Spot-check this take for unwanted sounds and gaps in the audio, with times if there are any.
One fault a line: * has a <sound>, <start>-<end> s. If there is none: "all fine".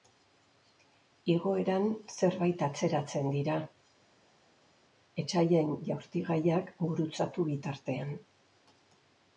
all fine